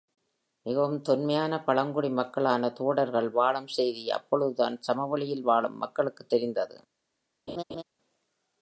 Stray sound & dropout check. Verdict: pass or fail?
fail